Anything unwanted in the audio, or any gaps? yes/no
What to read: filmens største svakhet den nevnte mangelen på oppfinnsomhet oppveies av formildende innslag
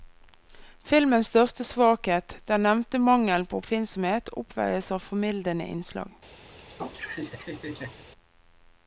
yes